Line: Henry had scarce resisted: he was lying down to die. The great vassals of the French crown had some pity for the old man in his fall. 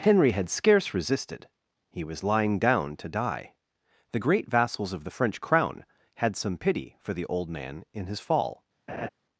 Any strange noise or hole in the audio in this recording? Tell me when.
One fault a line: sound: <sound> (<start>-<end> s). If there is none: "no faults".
sound: laugh (8.9-9.1 s)